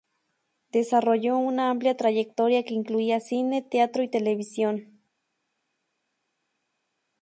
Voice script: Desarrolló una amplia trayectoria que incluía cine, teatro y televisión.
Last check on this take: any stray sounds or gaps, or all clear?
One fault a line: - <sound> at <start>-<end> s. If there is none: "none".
none